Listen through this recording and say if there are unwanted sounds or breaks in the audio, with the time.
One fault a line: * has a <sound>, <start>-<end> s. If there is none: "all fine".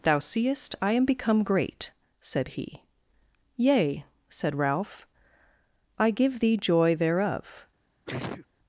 * has a sneeze, 8.1-8.5 s